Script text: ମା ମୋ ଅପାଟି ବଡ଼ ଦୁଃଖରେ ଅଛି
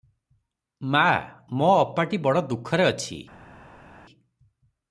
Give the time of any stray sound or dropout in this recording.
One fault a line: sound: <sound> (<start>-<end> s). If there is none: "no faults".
no faults